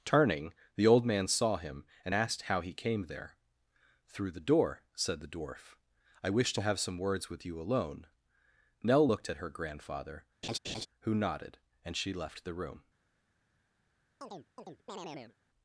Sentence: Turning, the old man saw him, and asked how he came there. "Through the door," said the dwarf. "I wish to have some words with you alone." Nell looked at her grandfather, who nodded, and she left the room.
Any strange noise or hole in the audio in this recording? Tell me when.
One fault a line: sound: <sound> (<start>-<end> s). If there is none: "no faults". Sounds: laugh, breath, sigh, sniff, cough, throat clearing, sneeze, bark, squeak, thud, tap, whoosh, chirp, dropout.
sound: laugh (10.4-10.9 s)
sound: chirp (14.2-15.4 s)